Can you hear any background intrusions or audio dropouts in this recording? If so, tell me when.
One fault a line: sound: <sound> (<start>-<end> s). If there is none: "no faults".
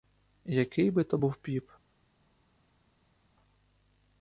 no faults